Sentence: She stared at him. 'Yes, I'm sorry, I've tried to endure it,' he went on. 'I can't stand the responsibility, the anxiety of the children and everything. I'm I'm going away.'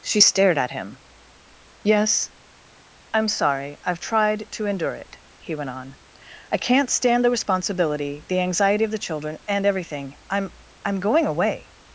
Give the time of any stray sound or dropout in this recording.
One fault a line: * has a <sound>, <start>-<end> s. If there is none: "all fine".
all fine